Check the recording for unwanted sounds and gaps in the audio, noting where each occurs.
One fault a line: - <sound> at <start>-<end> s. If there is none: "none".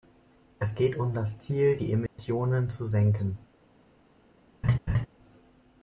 - dropout at 2.1-2.2 s
- laugh at 4.6-5.1 s